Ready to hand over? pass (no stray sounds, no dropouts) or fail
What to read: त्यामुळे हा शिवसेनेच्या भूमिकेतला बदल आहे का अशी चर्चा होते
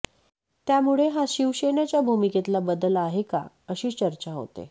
pass